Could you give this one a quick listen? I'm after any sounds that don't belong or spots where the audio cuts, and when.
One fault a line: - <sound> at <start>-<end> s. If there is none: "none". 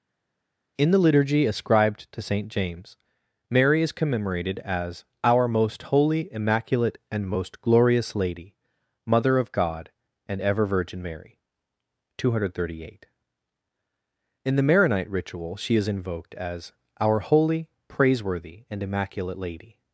none